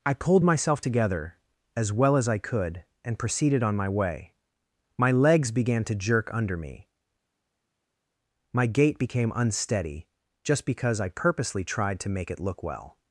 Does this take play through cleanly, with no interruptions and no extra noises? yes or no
yes